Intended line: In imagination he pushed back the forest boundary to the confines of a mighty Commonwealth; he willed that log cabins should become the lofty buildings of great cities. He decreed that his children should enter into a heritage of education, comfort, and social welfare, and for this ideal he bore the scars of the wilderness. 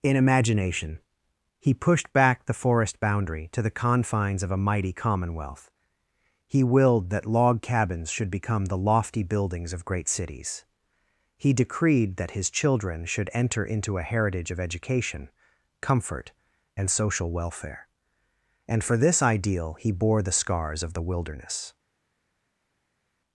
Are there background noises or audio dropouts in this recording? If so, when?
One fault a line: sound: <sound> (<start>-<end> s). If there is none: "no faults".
no faults